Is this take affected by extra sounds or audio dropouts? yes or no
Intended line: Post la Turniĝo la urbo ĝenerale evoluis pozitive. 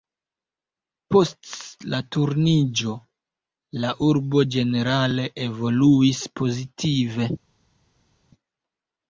no